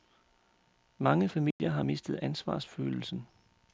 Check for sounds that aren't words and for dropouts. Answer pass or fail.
fail